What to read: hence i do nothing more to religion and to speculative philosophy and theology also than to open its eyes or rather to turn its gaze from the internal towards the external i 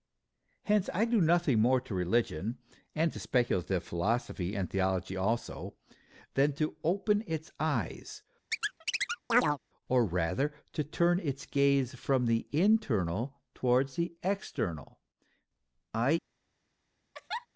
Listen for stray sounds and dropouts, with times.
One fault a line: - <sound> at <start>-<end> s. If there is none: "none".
- chirp at 8.5-9.6 s
- laugh at 17.1-17.5 s